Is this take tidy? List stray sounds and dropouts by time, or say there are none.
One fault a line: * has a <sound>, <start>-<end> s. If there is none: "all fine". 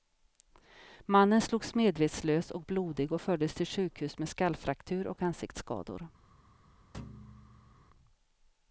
* has a thud, 6.9-7.8 s